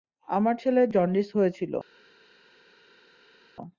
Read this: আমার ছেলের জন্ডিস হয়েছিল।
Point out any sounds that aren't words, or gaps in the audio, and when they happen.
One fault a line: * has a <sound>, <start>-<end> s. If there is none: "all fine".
all fine